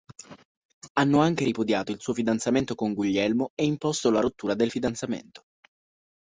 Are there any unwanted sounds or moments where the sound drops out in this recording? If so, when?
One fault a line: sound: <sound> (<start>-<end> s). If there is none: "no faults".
no faults